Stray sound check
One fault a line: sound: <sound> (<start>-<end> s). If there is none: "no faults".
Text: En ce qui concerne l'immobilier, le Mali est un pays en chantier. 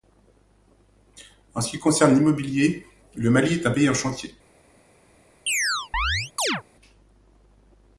sound: chirp (5.5-6.6 s)